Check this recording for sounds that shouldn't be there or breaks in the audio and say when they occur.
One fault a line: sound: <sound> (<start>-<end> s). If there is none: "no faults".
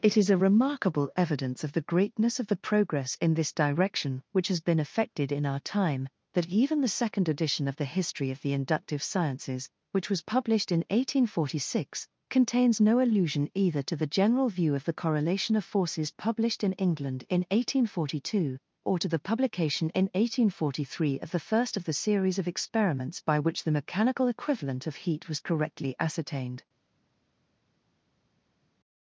no faults